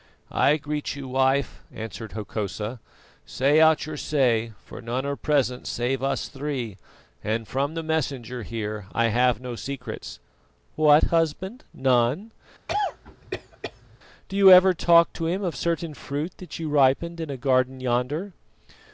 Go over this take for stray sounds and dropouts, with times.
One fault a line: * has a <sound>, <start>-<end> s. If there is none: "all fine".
* has a cough, 12.7-14.0 s